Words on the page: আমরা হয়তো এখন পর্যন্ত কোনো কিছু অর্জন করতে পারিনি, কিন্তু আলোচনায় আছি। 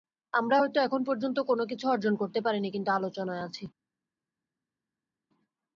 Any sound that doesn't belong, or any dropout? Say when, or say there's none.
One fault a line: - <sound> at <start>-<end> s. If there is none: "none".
none